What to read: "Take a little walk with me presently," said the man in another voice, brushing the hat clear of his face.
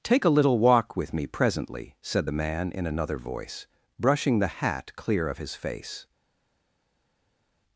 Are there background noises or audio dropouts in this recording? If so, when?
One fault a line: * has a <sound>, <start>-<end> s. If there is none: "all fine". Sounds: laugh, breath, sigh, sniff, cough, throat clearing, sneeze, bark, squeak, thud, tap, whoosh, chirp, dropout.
all fine